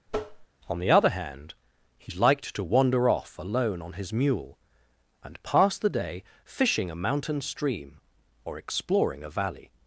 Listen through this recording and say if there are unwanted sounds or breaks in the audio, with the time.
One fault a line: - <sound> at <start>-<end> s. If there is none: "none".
- tap at 0.1-0.5 s